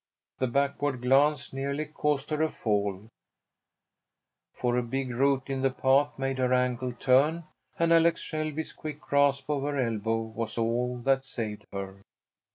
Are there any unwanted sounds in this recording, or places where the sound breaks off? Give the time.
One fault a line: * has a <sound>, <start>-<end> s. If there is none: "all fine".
all fine